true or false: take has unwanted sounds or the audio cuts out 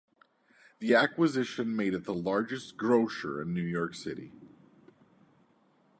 false